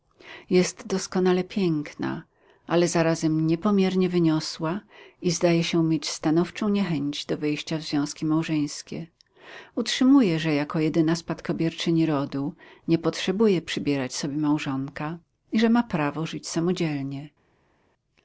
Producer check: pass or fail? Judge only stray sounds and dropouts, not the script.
pass